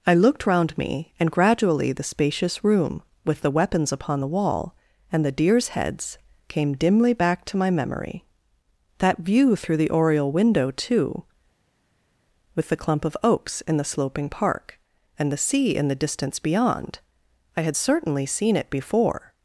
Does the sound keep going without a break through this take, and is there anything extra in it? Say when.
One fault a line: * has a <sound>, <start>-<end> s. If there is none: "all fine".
all fine